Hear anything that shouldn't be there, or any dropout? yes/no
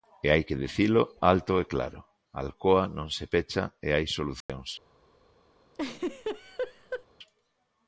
yes